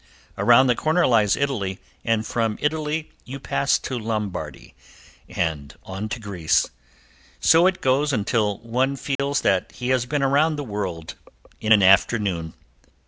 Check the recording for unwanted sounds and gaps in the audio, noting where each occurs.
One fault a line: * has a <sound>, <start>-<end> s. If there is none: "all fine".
* has a dropout, 9.2-9.2 s